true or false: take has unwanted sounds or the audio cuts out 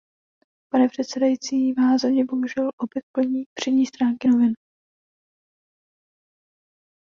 false